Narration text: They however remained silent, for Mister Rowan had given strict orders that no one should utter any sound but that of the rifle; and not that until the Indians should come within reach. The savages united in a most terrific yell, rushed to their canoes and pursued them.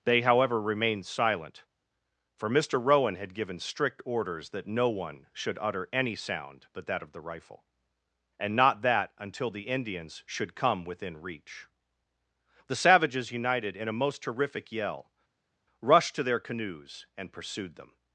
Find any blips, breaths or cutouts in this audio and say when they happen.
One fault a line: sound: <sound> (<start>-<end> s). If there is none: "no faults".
no faults